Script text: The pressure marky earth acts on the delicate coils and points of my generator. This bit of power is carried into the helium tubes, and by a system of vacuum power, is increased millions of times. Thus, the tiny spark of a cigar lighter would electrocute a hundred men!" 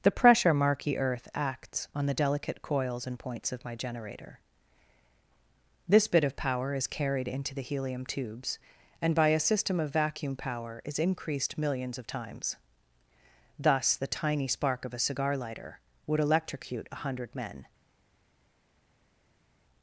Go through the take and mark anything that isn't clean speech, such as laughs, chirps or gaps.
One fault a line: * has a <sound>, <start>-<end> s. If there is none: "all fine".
all fine